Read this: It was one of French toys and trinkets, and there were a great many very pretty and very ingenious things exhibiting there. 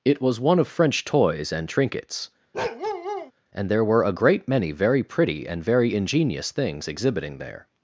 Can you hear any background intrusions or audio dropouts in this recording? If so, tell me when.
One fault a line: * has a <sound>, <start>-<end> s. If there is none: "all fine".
* has a bark, 2.5-3.3 s